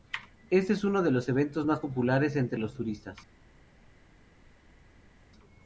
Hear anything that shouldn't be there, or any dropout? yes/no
no